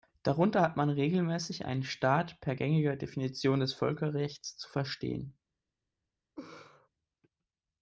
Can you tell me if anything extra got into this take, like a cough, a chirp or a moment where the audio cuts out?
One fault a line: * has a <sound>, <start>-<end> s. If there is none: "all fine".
* has a laugh, 6.4-6.9 s